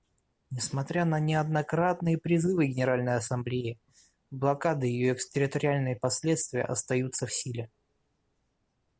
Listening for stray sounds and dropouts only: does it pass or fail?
pass